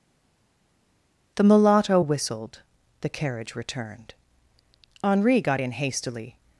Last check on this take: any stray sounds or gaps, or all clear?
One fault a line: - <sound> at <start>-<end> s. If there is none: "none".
none